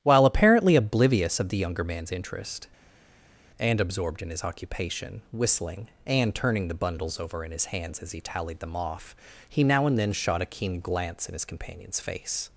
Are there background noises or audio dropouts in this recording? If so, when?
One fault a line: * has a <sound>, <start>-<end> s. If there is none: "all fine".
all fine